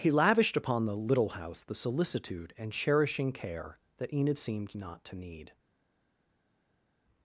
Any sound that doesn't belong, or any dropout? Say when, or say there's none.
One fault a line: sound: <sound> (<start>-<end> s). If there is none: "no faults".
no faults